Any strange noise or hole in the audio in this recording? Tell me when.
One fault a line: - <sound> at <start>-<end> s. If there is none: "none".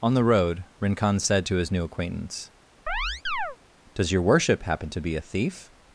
- chirp at 2.9-3.6 s